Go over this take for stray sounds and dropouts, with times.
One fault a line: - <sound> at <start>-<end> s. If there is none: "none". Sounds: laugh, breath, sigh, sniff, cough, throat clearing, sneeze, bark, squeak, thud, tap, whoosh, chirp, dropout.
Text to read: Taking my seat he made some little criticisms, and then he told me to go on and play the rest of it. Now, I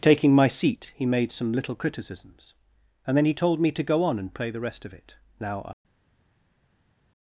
none